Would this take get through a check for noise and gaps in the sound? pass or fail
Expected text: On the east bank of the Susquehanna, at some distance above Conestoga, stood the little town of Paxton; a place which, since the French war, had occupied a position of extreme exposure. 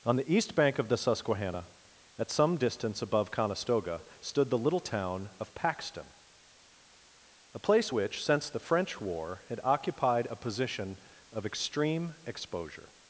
pass